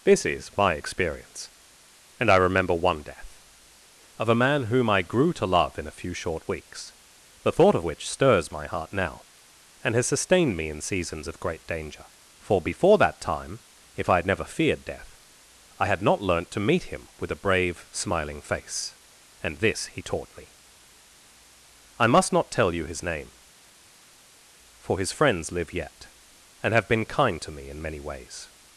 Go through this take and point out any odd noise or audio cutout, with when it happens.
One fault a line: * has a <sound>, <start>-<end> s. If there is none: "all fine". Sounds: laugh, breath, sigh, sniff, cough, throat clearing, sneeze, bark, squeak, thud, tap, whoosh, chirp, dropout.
all fine